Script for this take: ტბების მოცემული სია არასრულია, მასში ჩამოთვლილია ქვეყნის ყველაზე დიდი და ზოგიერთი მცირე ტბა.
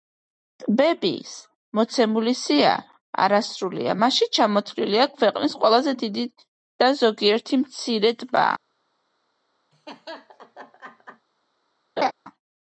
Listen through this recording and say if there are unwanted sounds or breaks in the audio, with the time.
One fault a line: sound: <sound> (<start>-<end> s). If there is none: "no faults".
sound: laugh (9.7-11.3 s)
sound: laugh (12.0-12.1 s)